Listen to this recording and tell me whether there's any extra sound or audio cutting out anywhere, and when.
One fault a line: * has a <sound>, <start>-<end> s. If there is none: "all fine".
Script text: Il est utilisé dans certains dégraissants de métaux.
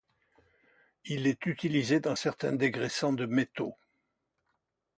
all fine